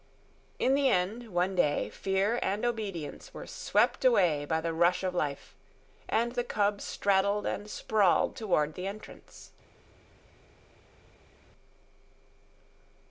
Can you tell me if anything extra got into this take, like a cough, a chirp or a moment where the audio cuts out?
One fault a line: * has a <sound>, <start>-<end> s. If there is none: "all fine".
all fine